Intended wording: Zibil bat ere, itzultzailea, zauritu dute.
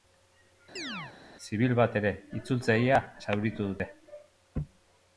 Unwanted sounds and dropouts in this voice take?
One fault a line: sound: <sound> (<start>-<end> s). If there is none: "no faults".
sound: chirp (0.8-1.2 s)